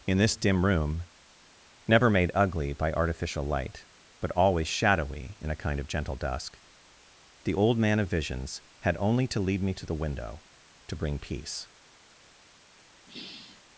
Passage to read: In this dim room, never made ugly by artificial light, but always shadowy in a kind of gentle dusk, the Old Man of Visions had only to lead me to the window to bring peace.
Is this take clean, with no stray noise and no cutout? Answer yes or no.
no